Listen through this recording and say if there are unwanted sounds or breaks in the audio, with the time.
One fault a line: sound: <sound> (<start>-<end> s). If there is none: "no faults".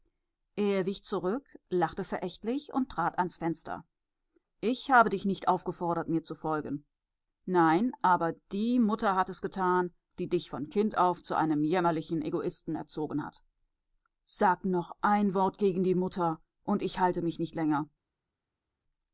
no faults